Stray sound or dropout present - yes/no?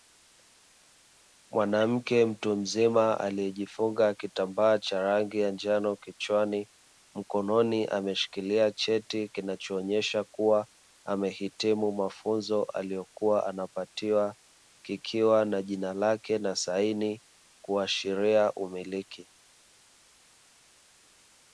no